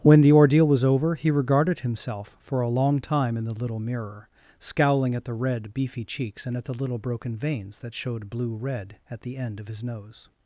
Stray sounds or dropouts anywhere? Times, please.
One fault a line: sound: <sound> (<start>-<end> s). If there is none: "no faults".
no faults